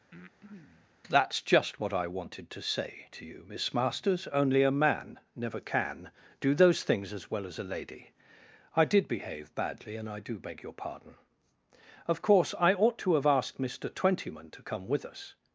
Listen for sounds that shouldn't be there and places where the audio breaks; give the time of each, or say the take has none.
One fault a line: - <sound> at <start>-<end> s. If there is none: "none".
- breath at 0.1-0.9 s